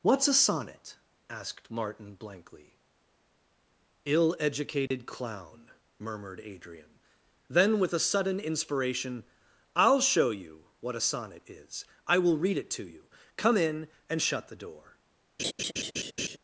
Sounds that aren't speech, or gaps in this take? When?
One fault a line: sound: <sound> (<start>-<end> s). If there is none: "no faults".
sound: dropout (4.9-4.9 s)
sound: laugh (15.4-16.4 s)